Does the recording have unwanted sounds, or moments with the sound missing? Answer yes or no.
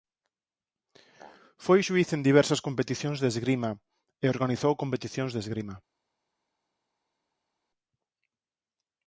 no